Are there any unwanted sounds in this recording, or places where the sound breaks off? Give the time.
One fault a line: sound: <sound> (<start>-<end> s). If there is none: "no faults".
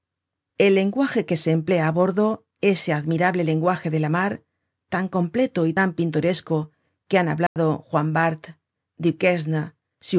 sound: dropout (7.5-7.6 s)